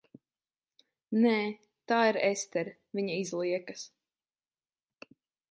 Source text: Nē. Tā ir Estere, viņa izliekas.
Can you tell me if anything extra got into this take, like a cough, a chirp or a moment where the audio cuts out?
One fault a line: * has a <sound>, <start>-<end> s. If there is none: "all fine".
all fine